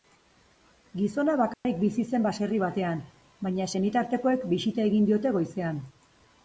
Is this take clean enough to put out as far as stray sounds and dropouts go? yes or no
no